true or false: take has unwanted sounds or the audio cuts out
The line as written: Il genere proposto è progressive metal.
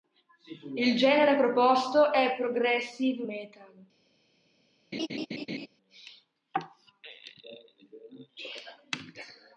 true